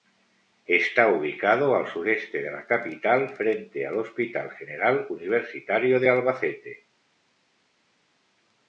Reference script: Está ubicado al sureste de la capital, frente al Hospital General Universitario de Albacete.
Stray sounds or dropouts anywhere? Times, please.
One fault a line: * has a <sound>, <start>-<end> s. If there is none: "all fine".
all fine